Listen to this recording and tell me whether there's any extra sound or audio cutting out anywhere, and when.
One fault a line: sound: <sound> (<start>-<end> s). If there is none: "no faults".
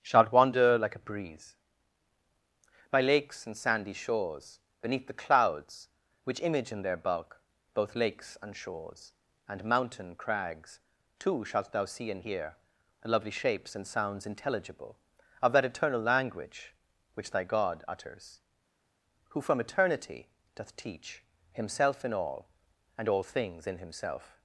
no faults